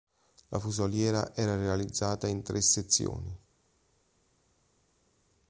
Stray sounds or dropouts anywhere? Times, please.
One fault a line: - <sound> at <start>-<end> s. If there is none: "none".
none